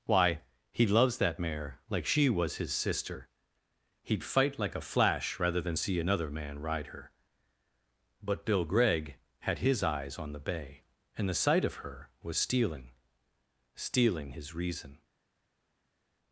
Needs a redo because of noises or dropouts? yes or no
no